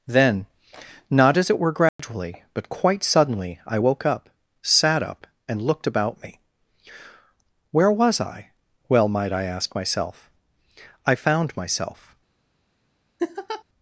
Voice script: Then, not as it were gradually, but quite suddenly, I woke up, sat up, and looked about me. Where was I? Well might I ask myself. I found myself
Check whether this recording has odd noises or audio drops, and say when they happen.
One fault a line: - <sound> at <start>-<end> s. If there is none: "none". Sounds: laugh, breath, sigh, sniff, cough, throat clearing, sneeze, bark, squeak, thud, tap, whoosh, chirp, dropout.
- dropout at 1.9-2.0 s
- laugh at 13.2-13.6 s